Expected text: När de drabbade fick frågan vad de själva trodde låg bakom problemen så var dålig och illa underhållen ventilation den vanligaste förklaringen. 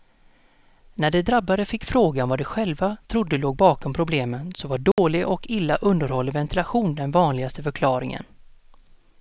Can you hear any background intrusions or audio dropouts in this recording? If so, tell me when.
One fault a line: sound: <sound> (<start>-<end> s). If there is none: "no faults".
sound: dropout (4.9-5.0 s)